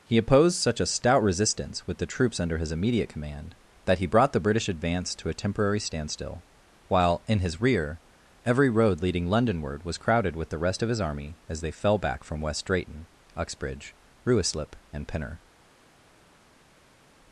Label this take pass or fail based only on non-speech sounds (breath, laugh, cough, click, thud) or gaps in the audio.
pass